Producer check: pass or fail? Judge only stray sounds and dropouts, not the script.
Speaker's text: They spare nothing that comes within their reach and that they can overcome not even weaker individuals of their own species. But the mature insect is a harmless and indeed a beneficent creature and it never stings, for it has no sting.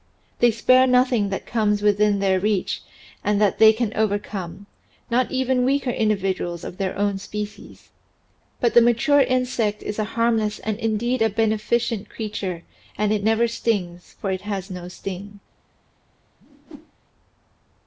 fail